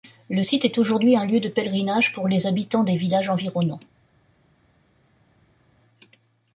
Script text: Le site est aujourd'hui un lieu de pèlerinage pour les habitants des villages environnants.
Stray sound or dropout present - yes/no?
no